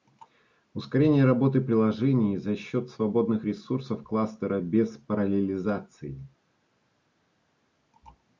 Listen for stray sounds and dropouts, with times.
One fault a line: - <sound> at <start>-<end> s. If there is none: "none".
none